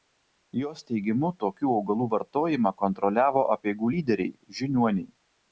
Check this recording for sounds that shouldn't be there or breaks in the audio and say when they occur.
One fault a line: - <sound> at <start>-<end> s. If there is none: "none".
none